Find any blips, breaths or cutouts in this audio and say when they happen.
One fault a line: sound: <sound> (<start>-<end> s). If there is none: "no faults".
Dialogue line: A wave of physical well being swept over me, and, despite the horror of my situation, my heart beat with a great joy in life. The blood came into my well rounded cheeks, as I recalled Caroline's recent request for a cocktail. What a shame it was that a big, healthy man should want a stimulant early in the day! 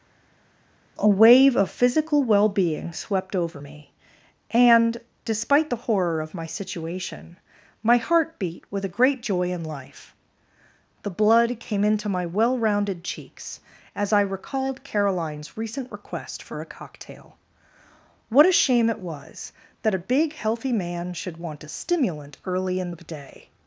no faults